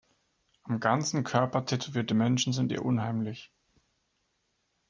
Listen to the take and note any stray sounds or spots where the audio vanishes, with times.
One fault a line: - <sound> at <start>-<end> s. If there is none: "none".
none